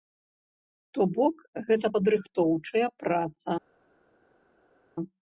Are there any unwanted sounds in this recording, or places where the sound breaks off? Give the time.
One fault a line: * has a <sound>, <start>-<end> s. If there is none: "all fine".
all fine